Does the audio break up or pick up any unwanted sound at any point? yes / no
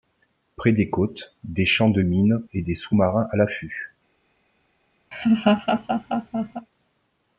yes